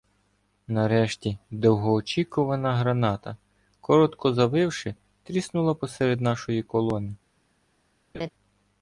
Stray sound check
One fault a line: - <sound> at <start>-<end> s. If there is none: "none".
- laugh at 8.1-8.3 s